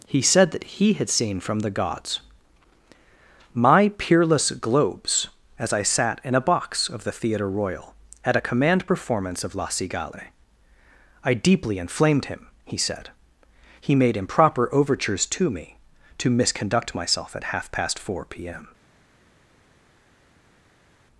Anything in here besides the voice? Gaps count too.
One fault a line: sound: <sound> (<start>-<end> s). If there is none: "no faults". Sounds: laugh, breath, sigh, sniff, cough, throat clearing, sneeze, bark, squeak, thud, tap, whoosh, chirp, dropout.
no faults